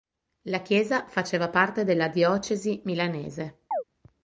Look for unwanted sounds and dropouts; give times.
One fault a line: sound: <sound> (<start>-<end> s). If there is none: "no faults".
sound: chirp (3.7-3.8 s)